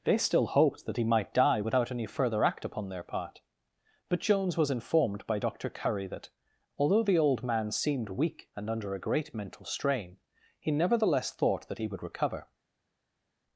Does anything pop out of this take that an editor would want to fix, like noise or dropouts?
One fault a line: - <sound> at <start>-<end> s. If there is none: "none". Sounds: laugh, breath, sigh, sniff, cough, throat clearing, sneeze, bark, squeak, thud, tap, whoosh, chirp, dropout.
none